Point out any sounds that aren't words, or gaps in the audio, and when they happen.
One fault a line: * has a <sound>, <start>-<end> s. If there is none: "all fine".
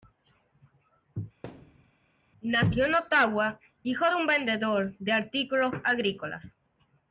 * has a thud, 1.4-1.9 s